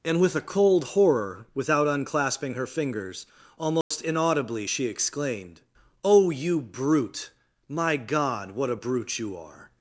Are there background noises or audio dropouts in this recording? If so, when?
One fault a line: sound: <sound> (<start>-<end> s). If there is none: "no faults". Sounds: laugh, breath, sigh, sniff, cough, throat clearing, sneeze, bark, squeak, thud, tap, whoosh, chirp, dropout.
sound: dropout (3.8-3.9 s)